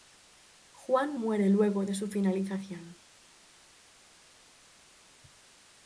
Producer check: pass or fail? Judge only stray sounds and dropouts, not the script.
pass